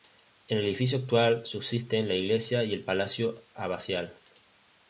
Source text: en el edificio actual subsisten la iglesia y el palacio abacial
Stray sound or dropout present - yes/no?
no